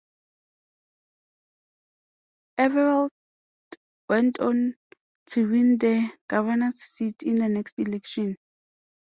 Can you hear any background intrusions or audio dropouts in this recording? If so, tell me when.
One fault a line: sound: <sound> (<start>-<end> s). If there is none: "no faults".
no faults